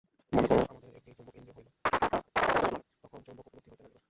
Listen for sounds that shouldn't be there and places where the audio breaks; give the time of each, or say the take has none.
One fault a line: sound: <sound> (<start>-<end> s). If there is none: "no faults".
sound: chirp (1.9-2.8 s)